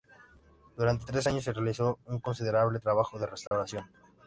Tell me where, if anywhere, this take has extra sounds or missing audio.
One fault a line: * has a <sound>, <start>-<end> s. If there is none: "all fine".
* has a dropout, 3.5-3.5 s